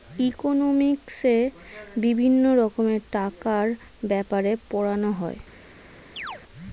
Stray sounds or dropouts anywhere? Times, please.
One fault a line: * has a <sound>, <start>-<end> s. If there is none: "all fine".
* has a chirp, 6.2-6.4 s